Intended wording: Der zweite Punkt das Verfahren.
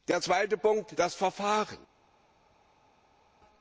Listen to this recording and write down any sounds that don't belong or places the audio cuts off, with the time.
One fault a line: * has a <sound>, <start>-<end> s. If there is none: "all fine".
all fine